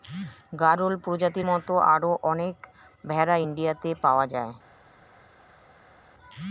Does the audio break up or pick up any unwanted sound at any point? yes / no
no